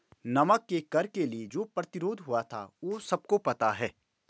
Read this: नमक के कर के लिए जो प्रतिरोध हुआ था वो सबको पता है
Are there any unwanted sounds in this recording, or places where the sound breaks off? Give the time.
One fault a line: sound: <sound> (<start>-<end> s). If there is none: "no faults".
no faults